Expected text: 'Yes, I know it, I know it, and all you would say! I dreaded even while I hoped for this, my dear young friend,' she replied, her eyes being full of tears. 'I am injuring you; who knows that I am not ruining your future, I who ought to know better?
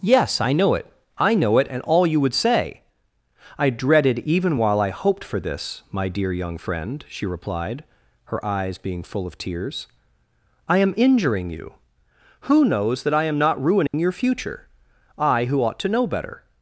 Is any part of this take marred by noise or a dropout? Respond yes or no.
yes